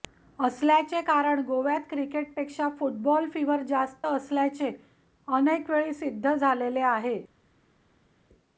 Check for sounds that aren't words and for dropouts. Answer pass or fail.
pass